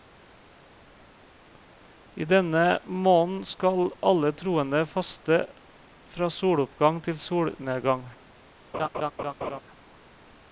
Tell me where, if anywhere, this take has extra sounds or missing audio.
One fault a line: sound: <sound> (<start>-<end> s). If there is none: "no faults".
sound: laugh (8.7-9.6 s)